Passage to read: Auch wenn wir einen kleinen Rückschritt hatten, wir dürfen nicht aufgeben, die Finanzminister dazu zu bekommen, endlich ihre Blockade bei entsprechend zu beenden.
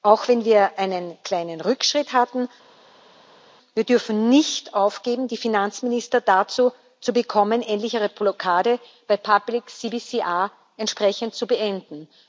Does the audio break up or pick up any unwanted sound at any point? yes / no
no